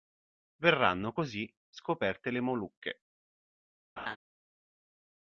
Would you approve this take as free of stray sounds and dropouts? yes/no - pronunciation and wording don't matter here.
no